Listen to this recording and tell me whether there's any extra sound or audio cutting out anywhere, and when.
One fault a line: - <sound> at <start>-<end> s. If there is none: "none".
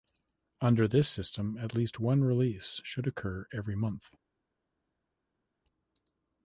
none